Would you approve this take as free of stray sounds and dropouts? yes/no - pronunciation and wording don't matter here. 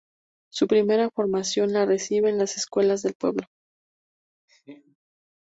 no